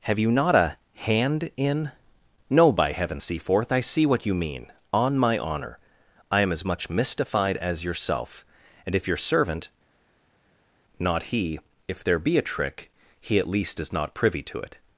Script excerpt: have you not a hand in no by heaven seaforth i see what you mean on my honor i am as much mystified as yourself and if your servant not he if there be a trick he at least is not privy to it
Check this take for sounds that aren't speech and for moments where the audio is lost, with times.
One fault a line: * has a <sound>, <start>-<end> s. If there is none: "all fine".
all fine